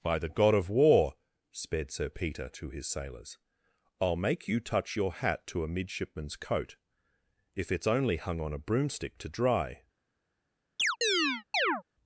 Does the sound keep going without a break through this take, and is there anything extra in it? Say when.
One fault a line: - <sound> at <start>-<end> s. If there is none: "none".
- chirp at 10.8-11.8 s